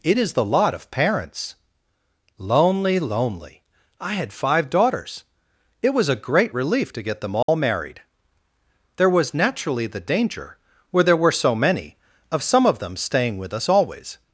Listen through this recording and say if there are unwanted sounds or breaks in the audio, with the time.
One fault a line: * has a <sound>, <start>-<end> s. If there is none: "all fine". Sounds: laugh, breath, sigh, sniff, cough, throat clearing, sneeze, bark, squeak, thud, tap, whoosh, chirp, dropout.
* has a dropout, 7.4-7.5 s